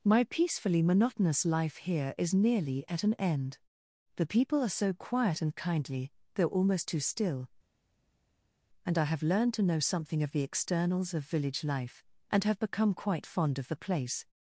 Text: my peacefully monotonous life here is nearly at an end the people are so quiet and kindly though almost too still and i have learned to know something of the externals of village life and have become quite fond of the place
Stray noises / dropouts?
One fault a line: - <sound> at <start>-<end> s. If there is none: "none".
none